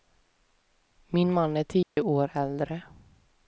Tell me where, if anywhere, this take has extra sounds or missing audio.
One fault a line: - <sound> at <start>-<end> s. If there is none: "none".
- dropout at 1.8-2.0 s